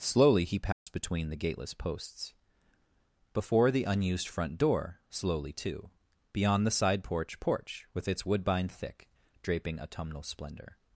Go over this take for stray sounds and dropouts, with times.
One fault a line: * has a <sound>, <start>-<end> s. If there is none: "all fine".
* has a dropout, 0.7-0.9 s